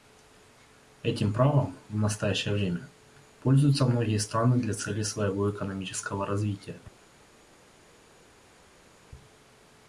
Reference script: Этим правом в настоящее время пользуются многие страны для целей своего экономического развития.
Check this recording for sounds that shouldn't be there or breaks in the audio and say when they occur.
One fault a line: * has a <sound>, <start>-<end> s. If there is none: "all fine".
all fine